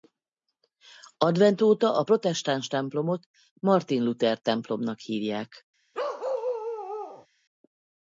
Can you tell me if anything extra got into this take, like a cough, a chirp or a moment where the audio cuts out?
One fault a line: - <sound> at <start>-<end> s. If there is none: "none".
- bark at 5.9-7.3 s